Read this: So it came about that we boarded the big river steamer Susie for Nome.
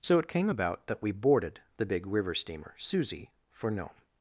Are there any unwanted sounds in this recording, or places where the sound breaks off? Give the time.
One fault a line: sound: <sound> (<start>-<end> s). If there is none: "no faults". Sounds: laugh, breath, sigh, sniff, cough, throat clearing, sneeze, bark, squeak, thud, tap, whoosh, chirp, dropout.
no faults